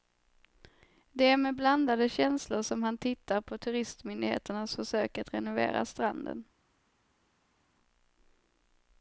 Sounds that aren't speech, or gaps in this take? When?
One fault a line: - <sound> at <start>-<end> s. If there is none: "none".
none